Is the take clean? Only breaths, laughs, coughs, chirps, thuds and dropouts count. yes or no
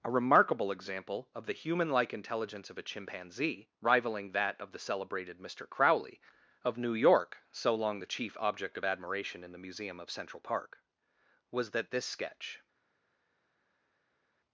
yes